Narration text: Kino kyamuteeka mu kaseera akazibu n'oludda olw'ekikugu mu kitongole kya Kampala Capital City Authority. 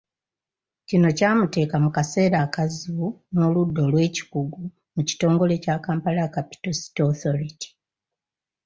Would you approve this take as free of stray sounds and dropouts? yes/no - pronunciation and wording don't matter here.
yes